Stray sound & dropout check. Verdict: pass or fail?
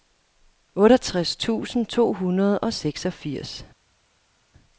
pass